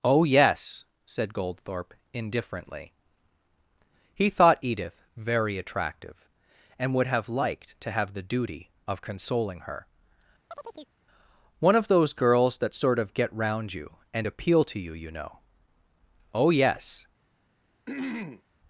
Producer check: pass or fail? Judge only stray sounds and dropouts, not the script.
fail